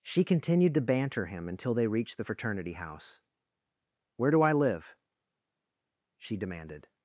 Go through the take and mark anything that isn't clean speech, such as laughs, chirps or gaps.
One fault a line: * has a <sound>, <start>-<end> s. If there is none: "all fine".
all fine